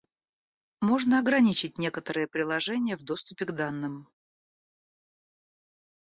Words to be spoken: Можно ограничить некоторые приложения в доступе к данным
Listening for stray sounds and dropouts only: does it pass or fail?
pass